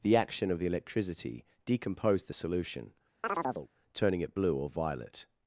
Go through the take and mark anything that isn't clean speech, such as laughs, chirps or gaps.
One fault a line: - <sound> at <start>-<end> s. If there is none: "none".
- chirp at 3.2-3.7 s